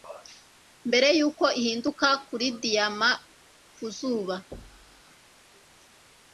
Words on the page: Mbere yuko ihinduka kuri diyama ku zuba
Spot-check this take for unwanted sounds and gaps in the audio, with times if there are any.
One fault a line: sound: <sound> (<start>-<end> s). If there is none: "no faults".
sound: thud (4.5-5.0 s)